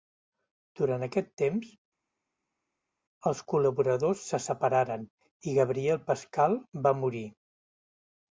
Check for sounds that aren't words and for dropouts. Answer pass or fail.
pass